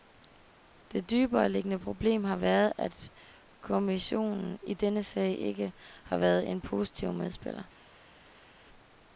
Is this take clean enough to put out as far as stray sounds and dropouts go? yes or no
yes